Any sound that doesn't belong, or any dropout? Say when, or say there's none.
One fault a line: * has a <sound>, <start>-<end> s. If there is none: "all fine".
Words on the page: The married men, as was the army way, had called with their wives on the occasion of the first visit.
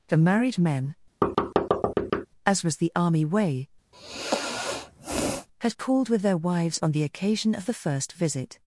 * has a thud, 1.2-2.3 s
* has a sigh, 3.9-5.5 s